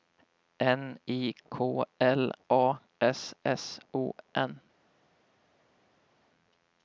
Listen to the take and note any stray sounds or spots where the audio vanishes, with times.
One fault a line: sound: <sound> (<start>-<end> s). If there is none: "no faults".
no faults